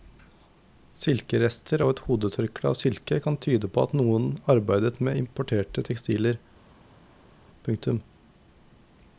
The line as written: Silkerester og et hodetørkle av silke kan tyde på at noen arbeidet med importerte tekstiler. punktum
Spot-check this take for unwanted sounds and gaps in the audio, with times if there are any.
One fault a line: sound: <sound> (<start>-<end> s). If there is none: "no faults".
no faults